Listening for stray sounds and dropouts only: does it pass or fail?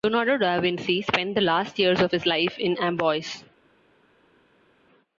pass